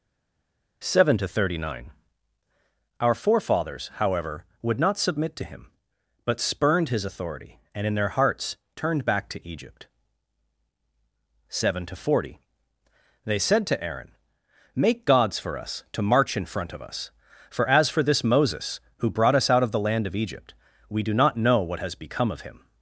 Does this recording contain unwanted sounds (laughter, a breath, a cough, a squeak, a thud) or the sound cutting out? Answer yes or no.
no